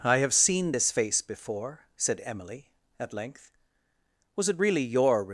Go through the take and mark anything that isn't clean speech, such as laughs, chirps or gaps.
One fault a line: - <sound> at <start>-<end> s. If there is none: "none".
none